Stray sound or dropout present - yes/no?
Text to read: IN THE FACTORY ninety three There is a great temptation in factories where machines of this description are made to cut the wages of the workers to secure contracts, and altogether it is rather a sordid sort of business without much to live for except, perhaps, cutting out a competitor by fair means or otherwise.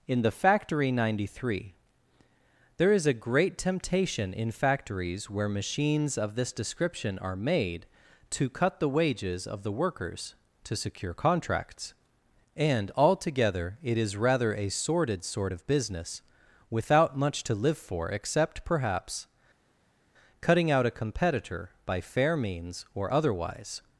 no